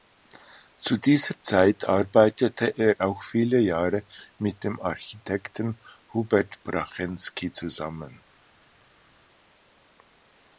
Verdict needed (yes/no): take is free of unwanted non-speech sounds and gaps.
yes